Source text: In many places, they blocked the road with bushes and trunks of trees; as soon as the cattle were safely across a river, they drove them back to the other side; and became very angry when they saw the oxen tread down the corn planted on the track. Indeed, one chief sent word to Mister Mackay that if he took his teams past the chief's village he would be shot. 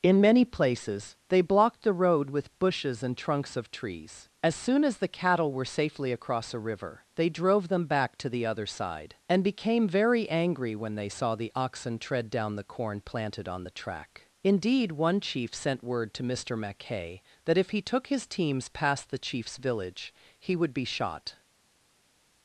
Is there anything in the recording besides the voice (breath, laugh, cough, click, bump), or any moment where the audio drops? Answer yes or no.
no